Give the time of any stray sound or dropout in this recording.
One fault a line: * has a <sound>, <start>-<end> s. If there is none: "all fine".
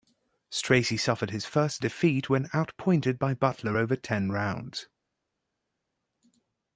all fine